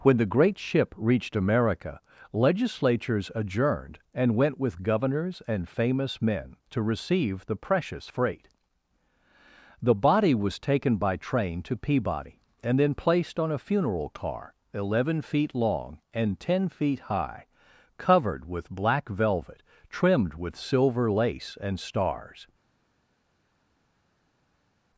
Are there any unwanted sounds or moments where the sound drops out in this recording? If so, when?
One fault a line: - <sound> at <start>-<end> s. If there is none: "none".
none